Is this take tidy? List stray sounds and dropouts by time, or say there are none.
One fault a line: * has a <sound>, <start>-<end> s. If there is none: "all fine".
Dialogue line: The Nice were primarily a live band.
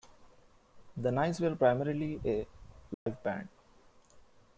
* has a dropout, 2.9-3.1 s